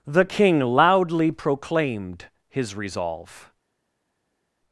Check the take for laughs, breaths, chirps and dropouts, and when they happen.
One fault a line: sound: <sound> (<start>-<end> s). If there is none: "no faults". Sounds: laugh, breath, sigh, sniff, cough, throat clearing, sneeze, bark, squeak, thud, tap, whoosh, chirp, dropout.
no faults